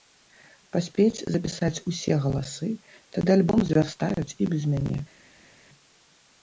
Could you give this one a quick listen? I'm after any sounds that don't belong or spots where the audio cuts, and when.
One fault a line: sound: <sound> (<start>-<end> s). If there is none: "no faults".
no faults